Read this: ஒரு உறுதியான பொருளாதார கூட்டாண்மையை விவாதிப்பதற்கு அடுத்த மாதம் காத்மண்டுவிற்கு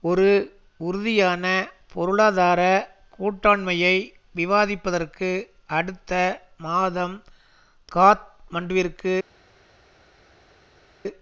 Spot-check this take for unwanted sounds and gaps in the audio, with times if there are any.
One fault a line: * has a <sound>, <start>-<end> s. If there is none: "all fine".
all fine